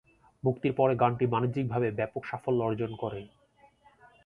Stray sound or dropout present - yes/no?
no